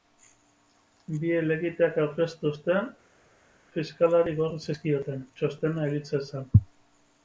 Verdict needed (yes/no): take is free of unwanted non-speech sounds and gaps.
yes